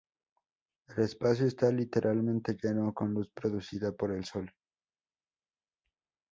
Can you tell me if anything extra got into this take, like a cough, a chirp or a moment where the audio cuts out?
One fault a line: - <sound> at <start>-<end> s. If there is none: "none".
none